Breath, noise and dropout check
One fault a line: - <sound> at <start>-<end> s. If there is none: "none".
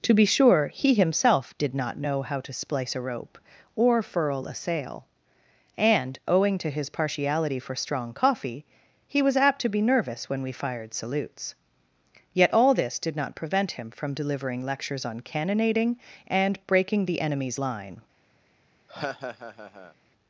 - laugh at 18.9-19.9 s